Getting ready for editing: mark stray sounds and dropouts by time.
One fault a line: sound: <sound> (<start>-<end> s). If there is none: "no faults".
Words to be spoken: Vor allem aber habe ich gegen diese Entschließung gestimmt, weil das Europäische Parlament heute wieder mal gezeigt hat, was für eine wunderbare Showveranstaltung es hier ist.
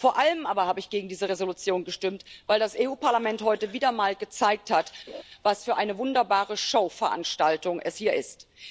sound: laugh (5.1-5.2 s)